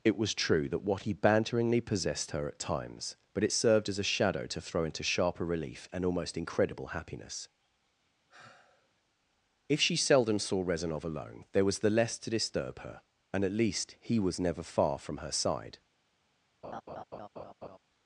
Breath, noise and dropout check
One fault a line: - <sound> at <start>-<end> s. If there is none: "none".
- sigh at 8.3-8.9 s
- laugh at 16.6-17.8 s